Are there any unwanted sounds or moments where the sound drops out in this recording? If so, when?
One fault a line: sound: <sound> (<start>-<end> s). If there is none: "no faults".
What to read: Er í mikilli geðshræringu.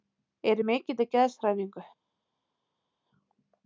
no faults